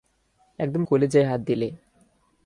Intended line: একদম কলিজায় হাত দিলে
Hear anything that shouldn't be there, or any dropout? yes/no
no